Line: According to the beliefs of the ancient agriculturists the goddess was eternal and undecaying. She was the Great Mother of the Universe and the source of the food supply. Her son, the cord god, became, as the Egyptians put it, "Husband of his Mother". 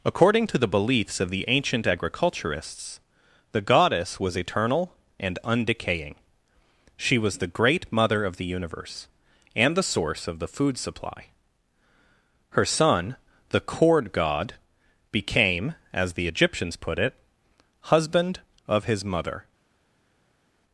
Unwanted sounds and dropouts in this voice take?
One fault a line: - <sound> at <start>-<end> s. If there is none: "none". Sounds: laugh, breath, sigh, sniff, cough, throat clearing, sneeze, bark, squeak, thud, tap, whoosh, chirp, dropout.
none